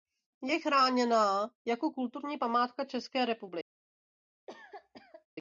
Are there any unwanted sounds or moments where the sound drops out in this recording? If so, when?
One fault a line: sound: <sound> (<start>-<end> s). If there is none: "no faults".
sound: cough (4.5-5.3 s)